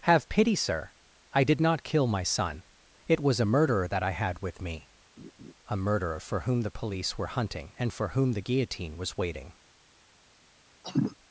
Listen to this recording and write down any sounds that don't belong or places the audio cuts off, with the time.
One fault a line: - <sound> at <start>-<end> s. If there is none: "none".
- laugh at 5.2-5.5 s
- cough at 10.8-11.2 s